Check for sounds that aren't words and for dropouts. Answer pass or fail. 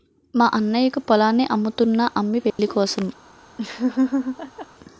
fail